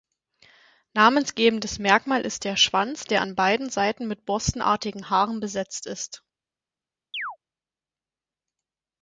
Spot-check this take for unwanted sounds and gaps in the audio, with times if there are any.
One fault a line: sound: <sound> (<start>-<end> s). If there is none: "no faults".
sound: chirp (7.1-7.4 s)